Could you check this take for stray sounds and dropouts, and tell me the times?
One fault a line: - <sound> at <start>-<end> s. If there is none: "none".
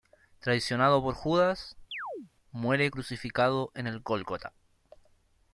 - chirp at 1.9-2.3 s